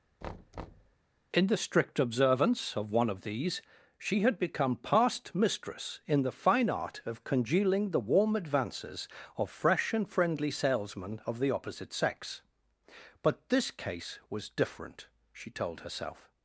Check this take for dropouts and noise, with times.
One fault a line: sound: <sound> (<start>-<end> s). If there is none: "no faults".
sound: thud (0.2-1.0 s)